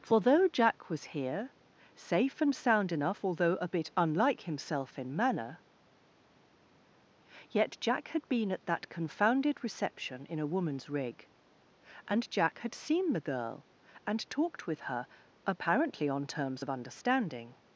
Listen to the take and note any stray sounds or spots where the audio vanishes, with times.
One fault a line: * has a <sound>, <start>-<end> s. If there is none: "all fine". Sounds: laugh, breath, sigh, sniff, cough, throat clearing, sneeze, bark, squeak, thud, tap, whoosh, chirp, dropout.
all fine